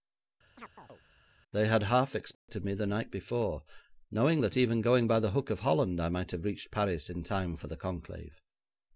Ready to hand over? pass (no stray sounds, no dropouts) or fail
fail